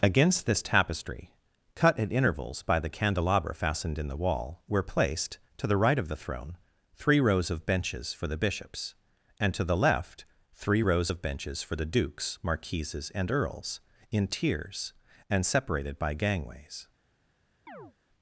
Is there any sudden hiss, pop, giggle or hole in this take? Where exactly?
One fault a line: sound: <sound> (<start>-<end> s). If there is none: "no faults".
sound: chirp (17.7-17.9 s)